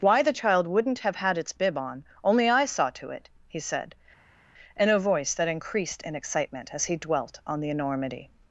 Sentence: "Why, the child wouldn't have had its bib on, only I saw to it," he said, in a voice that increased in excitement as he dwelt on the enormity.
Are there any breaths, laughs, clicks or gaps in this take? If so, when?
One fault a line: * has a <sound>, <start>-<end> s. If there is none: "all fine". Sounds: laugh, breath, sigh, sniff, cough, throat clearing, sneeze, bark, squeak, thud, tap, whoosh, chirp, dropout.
all fine